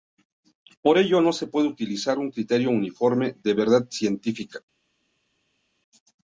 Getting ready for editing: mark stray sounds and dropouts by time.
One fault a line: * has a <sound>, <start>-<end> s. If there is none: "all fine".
all fine